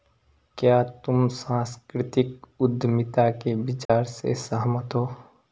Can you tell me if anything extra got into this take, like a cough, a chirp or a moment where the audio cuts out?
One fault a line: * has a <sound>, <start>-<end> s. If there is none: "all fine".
* has a dropout, 3.8-3.9 s